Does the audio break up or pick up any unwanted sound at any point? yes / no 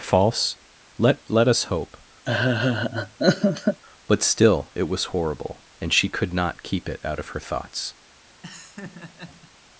yes